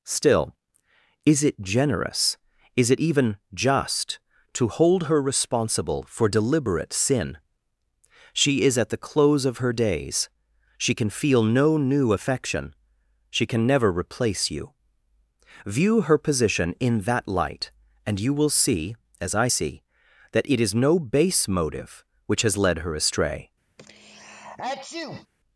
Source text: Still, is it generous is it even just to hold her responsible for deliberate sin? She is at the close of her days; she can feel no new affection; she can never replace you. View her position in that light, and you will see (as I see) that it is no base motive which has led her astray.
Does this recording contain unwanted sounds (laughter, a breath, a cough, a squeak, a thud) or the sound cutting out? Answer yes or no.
yes